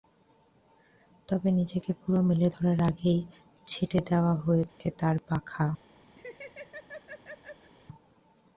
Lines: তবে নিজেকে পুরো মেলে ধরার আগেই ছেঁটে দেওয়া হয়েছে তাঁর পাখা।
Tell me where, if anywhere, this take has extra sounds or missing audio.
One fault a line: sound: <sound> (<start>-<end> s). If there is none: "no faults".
sound: dropout (4.7-4.8 s)
sound: laugh (6.2-7.7 s)